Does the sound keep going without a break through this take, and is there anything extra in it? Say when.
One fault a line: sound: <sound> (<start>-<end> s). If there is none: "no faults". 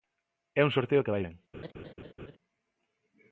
sound: laugh (1.5-2.4 s)